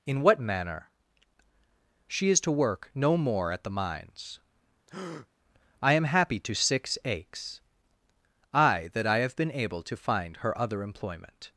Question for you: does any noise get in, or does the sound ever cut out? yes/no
yes